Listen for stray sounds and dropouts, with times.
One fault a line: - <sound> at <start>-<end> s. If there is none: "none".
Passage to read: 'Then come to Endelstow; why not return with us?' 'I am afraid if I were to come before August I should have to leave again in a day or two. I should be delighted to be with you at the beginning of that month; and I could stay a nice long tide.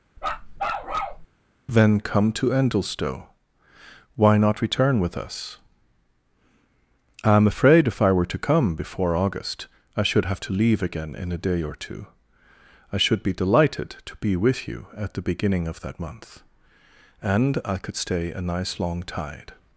- bark at 0.2-1.3 s